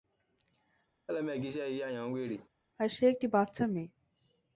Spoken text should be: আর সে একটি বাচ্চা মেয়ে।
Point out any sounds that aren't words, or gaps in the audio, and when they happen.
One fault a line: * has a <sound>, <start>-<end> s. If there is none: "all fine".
* has a laugh, 1.1-2.5 s